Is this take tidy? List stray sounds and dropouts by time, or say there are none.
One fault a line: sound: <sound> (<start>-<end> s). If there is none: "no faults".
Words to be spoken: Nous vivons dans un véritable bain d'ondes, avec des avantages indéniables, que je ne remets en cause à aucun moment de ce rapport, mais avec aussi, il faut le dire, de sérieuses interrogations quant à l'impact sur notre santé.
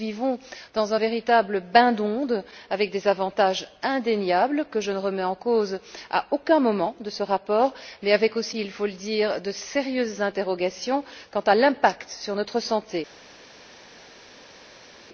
no faults